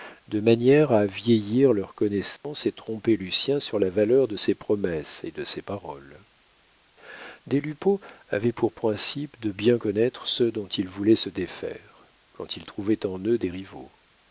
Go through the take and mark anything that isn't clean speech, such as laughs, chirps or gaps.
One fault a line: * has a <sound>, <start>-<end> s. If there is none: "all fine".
* has a dropout, 2.4-2.4 s